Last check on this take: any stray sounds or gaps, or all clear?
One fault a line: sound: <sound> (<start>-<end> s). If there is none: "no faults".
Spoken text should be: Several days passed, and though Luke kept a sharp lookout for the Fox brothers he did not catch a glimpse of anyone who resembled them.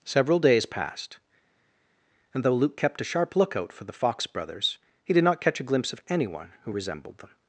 no faults